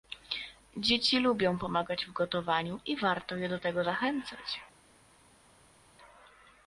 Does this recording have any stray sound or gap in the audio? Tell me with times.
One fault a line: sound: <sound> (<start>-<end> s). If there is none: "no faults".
no faults